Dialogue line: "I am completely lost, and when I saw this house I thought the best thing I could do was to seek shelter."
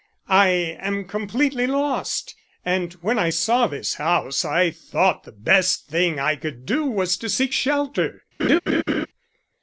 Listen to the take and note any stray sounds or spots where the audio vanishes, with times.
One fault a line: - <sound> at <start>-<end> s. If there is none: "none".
- laugh at 8.4-9.1 s